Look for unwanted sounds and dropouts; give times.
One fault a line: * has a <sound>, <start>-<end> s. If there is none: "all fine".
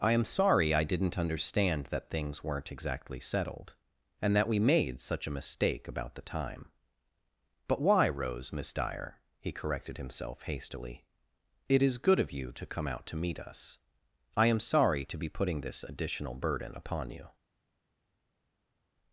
all fine